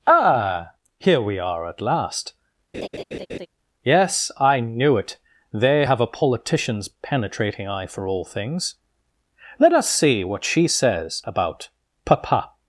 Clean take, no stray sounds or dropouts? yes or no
no